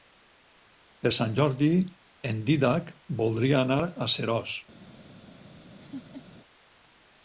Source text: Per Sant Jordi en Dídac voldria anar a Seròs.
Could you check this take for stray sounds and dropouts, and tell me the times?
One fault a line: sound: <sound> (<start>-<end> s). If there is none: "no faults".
sound: laugh (5.8-6.3 s)